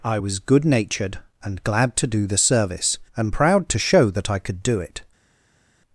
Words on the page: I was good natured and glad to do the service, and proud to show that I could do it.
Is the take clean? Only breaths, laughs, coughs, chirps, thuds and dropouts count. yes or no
yes